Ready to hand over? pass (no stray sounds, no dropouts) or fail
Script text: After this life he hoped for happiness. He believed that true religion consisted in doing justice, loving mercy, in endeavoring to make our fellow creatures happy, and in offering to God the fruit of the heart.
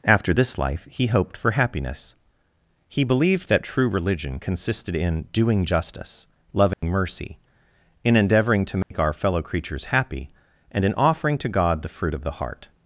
fail